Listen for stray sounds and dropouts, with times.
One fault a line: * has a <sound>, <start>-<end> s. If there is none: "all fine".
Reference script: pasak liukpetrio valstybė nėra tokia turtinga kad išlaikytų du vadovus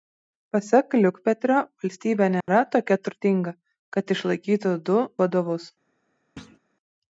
* has a dropout, 2.4-2.5 s
* has a thud, 6.4-6.6 s